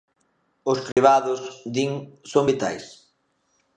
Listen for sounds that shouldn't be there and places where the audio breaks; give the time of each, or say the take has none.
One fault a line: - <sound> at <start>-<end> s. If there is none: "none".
- dropout at 0.9-1.0 s